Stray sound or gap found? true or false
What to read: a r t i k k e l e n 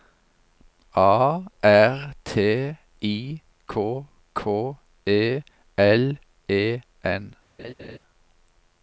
true